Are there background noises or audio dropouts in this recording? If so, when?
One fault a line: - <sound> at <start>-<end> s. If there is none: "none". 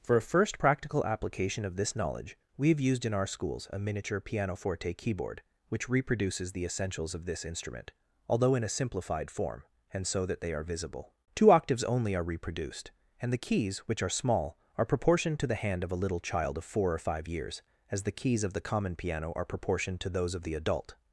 none